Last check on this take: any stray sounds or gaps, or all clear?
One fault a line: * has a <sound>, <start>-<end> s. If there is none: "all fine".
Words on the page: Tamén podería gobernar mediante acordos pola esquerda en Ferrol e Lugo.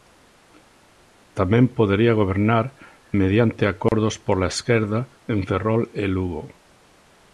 * has a dropout, 3.9-3.9 s